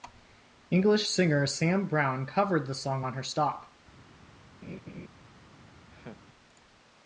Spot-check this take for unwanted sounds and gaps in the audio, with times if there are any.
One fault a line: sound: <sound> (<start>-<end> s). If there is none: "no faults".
sound: laugh (4.6-5.1 s)
sound: laugh (5.9-6.2 s)